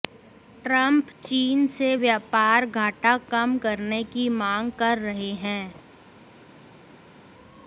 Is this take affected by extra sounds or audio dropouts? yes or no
no